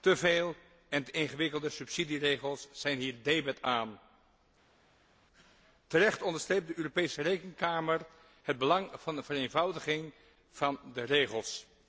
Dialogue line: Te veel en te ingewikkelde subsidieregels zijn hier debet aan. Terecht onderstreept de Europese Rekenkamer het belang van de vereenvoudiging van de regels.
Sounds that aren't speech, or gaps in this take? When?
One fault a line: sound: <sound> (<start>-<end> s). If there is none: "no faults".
no faults